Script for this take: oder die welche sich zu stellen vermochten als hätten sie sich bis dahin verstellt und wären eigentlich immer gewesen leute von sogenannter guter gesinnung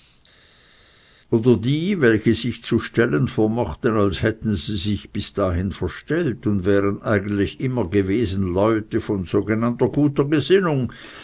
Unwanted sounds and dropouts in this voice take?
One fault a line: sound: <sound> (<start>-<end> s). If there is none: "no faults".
no faults